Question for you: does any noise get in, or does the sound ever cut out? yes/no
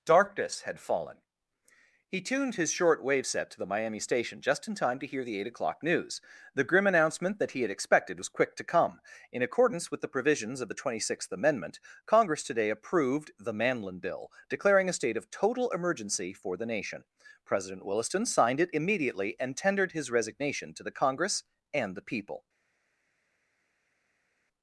no